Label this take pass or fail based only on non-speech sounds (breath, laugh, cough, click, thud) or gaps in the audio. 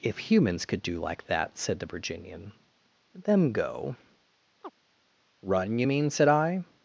fail